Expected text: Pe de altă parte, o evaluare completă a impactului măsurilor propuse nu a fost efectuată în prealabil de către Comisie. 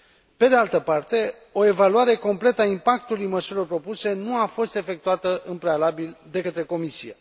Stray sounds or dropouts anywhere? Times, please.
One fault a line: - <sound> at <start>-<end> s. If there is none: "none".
none